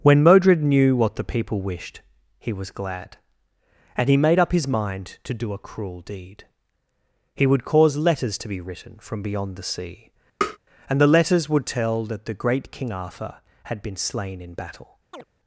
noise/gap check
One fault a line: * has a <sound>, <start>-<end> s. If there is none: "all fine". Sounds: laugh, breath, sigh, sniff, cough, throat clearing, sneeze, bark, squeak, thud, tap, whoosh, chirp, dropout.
* has a tap, 10.4-10.6 s
* has a chirp, 15.1-15.2 s